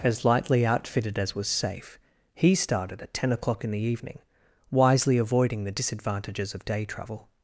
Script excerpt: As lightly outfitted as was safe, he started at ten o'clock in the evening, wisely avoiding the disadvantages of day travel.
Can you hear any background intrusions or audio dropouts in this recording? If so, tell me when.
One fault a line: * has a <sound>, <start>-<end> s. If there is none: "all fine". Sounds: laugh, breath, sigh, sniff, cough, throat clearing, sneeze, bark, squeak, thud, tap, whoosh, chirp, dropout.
all fine